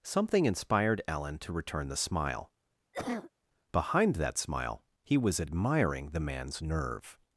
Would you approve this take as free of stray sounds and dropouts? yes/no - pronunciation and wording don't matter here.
no